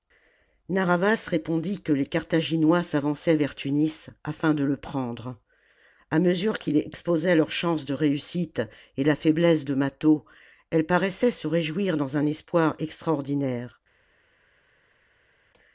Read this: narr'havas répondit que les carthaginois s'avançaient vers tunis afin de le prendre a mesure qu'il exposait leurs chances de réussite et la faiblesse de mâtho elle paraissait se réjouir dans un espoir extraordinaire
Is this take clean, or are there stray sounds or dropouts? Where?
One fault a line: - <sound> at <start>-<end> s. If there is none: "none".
none